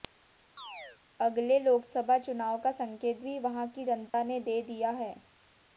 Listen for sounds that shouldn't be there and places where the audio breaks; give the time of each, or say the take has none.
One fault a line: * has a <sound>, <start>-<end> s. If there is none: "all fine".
* has a chirp, 0.6-1.0 s
* has a dropout, 4.1-4.1 s